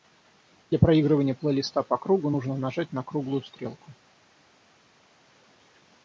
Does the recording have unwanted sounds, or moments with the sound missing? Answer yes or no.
no